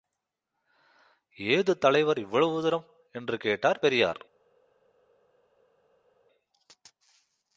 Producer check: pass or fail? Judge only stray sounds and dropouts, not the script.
pass